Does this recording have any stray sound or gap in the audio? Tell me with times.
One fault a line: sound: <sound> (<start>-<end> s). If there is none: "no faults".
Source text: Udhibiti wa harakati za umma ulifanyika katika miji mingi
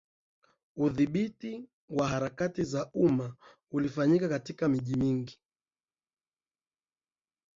no faults